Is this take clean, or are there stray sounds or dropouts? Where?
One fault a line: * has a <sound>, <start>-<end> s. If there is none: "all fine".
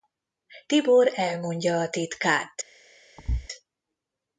* has a thud, 3.2-3.5 s